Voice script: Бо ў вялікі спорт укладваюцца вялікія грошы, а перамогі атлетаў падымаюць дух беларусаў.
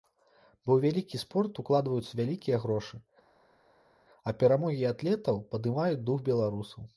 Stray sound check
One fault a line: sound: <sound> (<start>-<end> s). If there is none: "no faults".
no faults